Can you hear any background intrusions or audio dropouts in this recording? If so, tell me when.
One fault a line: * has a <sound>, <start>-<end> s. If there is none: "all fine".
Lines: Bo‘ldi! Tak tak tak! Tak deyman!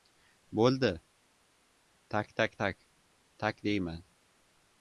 all fine